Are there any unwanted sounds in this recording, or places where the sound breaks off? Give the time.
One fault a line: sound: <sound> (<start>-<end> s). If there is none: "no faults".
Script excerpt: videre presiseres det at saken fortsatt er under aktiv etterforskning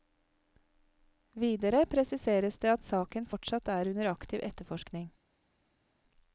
no faults